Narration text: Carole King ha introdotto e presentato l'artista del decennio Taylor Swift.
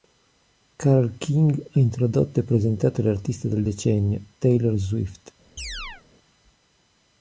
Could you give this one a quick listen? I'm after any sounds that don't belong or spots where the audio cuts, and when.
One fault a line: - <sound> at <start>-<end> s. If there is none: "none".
- chirp at 5.6-6.0 s